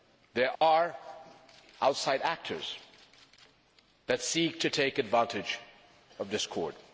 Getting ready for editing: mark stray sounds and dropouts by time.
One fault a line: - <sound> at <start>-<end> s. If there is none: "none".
- dropout at 0.6-0.6 s